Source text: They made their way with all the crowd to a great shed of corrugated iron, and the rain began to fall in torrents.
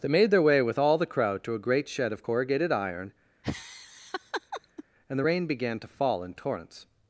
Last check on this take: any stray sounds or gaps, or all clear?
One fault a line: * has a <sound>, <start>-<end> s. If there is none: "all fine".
* has a laugh, 3.4-4.8 s